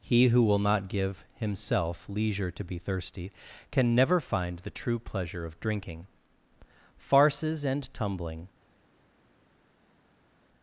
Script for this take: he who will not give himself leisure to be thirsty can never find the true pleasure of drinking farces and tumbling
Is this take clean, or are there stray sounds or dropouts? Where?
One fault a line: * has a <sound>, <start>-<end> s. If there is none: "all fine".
all fine